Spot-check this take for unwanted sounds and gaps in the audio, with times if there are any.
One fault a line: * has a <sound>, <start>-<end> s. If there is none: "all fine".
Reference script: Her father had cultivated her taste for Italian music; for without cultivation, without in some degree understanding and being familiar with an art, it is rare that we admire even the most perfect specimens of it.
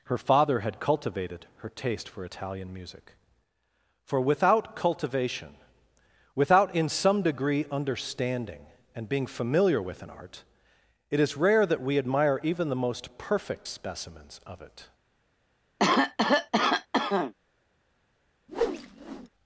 * has a cough, 15.8-17.3 s
* has a whoosh, 18.5-19.3 s